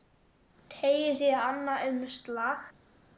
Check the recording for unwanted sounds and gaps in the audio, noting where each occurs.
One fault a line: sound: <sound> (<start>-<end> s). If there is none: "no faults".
no faults